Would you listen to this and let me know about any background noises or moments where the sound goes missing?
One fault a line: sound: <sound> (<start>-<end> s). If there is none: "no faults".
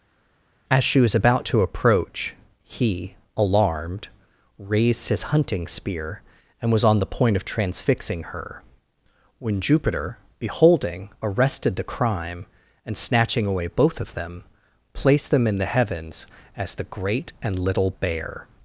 no faults